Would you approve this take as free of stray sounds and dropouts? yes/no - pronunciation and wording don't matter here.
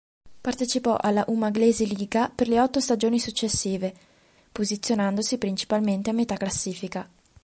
yes